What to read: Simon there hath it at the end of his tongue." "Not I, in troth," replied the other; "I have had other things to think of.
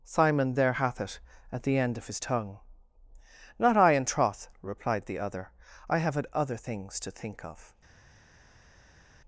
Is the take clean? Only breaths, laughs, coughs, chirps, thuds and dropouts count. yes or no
yes